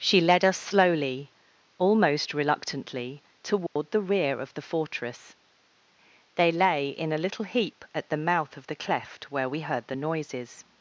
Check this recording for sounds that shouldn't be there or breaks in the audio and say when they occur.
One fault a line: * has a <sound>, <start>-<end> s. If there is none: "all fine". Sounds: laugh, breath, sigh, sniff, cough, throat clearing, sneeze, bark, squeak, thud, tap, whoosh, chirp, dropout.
* has a dropout, 3.7-3.8 s